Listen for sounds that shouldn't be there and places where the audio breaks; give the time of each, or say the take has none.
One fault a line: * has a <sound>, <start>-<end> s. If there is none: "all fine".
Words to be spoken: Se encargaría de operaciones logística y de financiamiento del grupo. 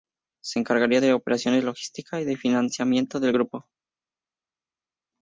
all fine